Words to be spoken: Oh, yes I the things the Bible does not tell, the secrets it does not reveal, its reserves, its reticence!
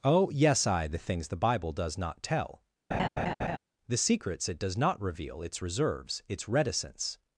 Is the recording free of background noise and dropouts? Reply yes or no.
no